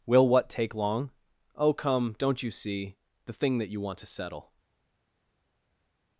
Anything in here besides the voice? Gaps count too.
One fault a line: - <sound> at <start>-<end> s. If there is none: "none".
none